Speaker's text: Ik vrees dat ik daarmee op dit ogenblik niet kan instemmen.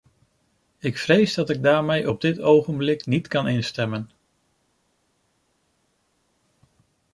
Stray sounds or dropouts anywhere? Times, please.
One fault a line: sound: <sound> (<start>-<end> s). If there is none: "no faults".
no faults